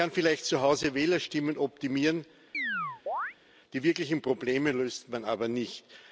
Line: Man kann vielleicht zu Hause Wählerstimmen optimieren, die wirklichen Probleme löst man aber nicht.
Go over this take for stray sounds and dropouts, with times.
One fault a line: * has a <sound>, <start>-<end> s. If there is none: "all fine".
* has a chirp, 2.5-3.3 s